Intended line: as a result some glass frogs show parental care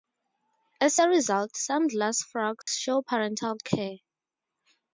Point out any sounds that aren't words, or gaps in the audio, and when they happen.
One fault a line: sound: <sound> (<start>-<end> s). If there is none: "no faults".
sound: dropout (2.6-2.7 s)